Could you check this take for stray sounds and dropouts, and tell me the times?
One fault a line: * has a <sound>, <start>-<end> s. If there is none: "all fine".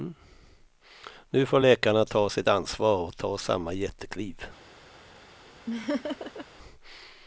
* has a laugh, 5.7-6.5 s